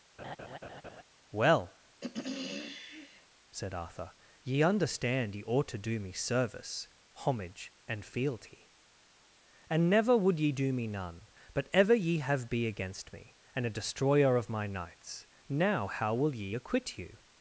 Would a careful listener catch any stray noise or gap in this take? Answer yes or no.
yes